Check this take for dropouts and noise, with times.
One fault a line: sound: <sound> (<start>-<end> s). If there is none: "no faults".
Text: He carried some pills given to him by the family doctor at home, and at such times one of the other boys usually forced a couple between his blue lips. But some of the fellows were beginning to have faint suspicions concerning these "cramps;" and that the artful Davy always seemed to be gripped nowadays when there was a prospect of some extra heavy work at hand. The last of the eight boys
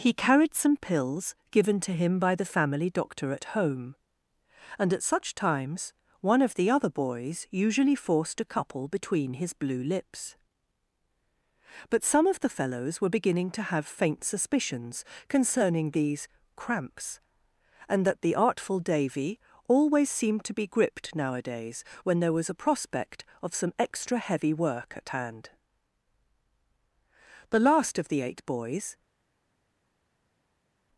no faults